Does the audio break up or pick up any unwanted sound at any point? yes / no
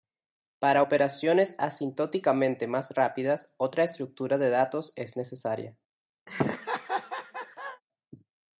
yes